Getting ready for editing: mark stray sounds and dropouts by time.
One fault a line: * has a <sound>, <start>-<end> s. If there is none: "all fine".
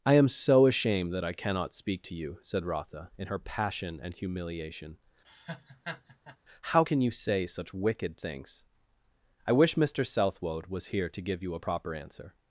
* has a laugh, 5.2-6.4 s